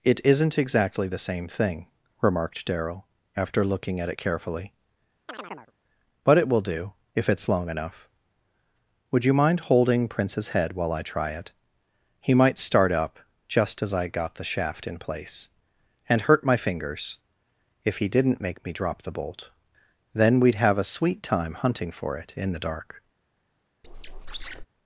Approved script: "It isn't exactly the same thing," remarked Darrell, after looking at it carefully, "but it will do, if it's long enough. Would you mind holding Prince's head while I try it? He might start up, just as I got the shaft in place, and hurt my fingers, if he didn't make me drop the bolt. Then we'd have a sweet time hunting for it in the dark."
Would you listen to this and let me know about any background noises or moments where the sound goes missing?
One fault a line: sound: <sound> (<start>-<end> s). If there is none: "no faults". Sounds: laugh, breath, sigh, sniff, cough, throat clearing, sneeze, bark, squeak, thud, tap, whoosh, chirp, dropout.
sound: chirp (5.3-5.7 s)
sound: squeak (23.8-24.7 s)